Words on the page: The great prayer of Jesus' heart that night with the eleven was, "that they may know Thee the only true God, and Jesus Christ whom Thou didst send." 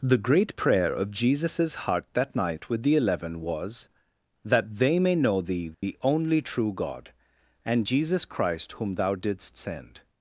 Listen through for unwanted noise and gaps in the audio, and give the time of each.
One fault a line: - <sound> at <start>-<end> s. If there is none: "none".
- dropout at 5.7-5.8 s